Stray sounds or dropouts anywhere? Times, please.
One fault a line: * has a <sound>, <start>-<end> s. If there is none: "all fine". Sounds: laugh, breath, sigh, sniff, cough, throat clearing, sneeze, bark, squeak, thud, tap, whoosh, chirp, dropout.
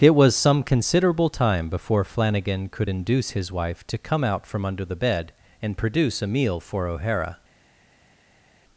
all fine